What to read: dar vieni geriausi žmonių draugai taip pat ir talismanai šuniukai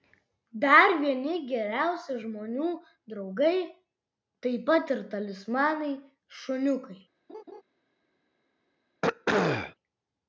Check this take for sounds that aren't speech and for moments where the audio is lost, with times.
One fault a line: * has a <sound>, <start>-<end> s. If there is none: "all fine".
* has a laugh, 7.3-7.6 s
* has a throat clearing, 9.0-9.8 s